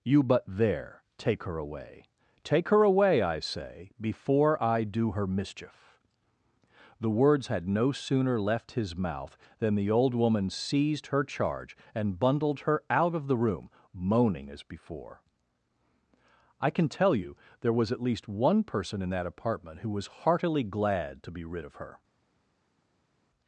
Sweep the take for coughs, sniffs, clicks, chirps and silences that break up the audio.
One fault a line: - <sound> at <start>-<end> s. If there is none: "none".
none